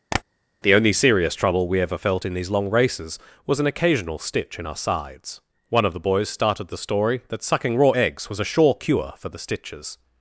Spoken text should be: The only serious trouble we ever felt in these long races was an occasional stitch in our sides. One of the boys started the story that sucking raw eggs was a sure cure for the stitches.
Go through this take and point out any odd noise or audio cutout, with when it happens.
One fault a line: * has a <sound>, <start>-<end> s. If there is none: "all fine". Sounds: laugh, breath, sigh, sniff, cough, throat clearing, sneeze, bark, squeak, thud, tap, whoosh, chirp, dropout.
* has a tap, 0.1-0.2 s